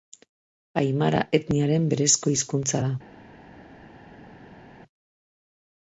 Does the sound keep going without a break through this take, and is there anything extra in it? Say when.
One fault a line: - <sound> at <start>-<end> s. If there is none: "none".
none